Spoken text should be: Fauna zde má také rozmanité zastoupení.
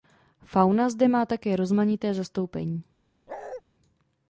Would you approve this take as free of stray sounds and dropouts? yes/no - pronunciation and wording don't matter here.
no